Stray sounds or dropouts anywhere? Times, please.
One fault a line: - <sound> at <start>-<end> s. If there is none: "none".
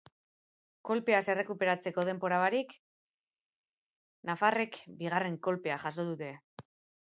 none